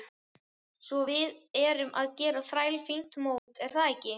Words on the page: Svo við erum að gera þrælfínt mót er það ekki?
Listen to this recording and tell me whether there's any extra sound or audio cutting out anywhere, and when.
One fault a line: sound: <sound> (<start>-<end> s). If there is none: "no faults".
sound: dropout (3.4-3.5 s)